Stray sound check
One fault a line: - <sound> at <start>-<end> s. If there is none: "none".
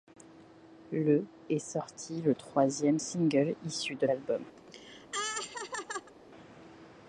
- laugh at 4.6-6.1 s